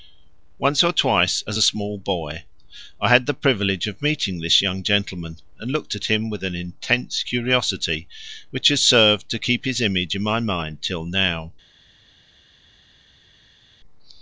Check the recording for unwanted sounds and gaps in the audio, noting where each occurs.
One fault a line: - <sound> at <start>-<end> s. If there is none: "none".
none